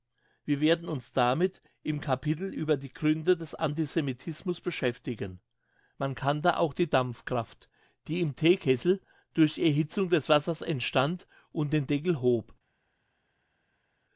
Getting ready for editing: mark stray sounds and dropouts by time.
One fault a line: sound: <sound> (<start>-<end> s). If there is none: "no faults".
no faults